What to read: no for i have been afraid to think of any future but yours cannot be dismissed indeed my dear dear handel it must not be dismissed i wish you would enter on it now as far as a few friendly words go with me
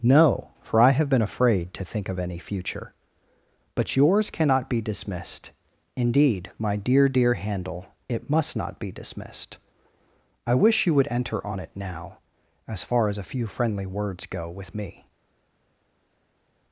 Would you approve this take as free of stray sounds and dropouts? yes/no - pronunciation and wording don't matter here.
yes